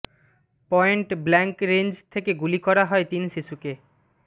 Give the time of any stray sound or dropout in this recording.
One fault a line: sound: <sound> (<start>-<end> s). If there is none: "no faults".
no faults